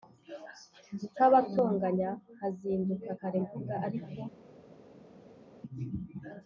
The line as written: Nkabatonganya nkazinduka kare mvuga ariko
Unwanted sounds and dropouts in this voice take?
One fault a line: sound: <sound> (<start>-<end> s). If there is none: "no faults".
no faults